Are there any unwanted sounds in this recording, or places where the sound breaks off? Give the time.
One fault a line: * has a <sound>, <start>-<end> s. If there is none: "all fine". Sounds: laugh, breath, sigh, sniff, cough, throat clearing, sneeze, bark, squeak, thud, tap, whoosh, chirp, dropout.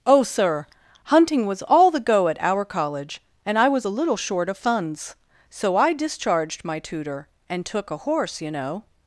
all fine